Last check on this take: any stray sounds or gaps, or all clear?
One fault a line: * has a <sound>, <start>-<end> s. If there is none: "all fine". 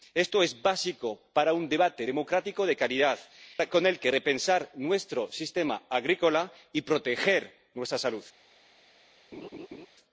* has a laugh, 9.3-9.9 s